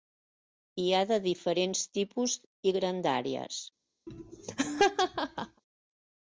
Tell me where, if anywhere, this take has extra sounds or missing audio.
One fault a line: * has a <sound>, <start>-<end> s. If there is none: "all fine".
* has a laugh, 4.1-5.6 s